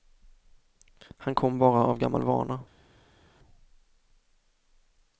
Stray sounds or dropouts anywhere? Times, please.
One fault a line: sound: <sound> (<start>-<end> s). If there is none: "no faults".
no faults